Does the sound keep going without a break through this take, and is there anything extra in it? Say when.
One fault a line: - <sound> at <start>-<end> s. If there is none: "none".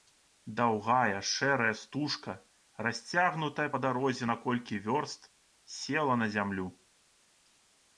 none